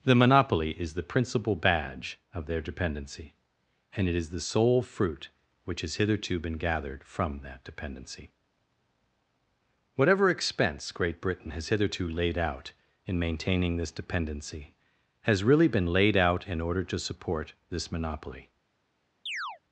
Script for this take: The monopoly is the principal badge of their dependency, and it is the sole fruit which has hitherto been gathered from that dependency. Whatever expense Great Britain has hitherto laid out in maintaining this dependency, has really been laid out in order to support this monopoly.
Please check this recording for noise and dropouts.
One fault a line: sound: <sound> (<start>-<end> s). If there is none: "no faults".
sound: chirp (19.3-19.6 s)